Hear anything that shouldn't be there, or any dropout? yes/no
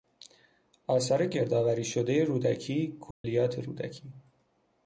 yes